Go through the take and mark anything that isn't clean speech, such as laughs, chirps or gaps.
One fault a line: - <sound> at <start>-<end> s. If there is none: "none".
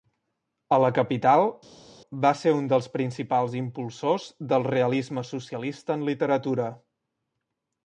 none